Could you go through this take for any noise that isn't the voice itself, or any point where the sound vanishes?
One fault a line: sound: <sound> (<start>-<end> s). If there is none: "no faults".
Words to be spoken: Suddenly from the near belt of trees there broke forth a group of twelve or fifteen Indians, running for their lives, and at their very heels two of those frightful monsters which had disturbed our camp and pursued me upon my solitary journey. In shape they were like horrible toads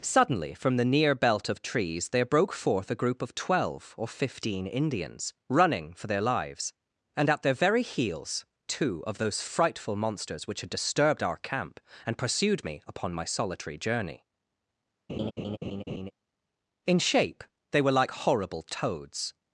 sound: laugh (15.1-16.1 s)